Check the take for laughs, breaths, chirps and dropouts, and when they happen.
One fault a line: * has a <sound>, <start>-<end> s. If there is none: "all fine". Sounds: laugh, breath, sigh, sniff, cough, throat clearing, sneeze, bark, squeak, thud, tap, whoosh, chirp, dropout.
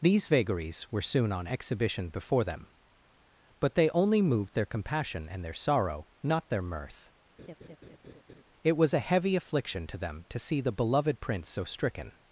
* has a laugh, 7.4-8.4 s